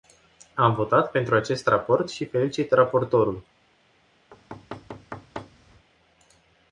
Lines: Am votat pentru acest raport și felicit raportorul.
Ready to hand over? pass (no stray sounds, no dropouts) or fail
fail